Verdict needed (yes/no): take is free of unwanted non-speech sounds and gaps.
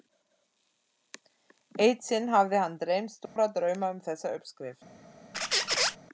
no